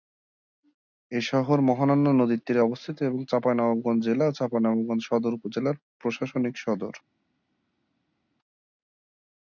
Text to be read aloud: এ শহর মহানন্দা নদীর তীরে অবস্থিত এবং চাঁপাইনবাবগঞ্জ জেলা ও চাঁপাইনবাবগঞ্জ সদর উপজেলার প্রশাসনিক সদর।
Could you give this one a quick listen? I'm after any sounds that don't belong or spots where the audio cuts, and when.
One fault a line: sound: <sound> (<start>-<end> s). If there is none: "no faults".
no faults